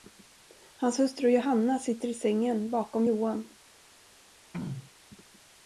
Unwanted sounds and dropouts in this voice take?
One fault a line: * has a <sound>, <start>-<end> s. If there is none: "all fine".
* has a throat clearing, 4.5-4.9 s